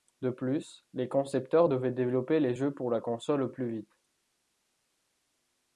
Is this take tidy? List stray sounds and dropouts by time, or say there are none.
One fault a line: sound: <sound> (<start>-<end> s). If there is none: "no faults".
no faults